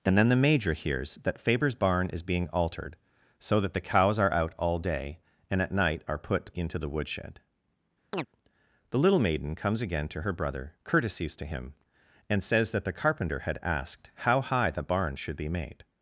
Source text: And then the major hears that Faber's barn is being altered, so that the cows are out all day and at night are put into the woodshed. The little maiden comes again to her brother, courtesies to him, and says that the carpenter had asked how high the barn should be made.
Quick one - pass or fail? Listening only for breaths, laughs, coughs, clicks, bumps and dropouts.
fail